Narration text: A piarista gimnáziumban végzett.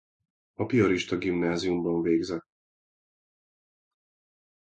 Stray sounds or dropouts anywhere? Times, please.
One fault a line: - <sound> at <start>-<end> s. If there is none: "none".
none